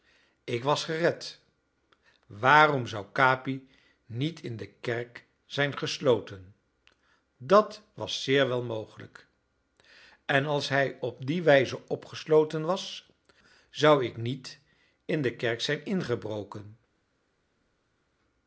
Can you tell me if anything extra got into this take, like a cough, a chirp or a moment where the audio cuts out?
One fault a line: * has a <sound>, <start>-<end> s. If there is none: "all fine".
all fine